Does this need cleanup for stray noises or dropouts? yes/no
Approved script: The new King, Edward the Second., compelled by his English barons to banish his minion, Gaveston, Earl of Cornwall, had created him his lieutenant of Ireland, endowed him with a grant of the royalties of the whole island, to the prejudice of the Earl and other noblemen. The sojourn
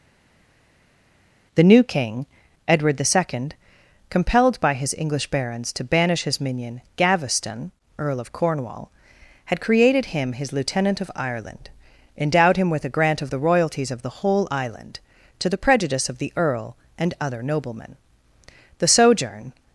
no